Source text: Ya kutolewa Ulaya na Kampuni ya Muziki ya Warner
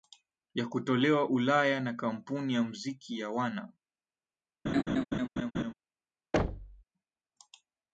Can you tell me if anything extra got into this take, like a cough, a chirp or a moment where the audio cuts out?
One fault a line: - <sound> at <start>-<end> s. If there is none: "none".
- laugh at 4.7-5.7 s
- thud at 6.3-6.8 s